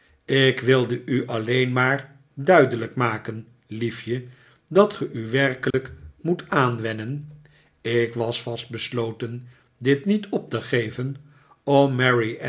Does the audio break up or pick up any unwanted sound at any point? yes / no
yes